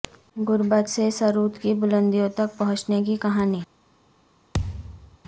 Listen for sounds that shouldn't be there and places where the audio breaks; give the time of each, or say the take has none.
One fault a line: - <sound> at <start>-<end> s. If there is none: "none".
- thud at 4.5-5.2 s